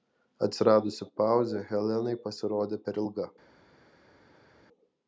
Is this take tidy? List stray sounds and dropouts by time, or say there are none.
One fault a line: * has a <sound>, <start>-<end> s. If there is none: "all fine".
all fine